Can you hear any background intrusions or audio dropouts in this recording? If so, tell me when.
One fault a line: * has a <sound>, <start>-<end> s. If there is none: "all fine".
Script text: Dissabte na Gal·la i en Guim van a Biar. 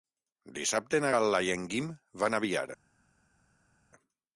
all fine